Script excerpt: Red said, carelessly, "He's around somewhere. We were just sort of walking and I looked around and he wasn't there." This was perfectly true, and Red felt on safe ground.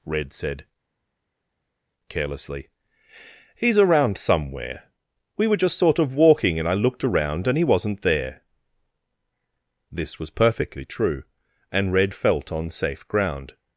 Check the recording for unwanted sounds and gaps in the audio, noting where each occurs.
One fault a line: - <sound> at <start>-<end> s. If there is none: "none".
none